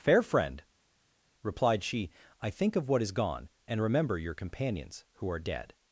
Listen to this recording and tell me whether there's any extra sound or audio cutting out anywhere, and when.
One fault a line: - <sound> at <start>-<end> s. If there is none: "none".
none